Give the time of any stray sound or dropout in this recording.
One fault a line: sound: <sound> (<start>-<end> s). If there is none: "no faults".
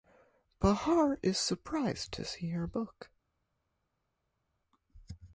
no faults